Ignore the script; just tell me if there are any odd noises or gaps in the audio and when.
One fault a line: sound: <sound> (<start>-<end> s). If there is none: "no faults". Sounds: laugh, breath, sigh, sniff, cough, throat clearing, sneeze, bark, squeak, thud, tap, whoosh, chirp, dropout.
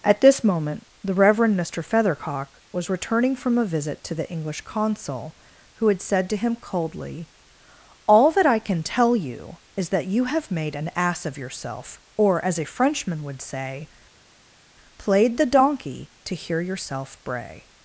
no faults